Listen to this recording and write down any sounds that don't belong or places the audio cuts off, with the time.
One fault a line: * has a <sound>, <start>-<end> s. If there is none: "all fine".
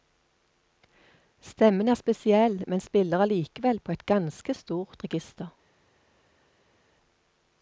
all fine